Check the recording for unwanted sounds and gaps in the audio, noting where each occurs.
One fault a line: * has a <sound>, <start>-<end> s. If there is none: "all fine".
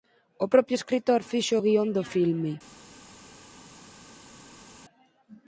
all fine